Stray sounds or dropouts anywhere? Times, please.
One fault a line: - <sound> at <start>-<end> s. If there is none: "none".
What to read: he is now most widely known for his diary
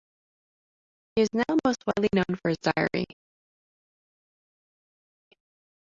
none